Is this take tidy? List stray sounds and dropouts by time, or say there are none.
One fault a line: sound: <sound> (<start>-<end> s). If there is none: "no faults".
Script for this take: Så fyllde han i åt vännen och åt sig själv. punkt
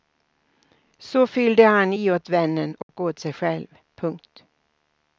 sound: dropout (2.8-2.9 s)